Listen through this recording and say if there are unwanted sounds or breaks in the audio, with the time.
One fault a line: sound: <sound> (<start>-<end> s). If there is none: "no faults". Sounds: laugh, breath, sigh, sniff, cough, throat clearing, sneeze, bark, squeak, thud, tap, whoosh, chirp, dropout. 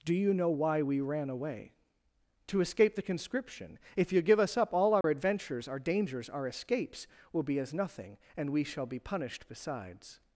sound: dropout (5.0-5.0 s)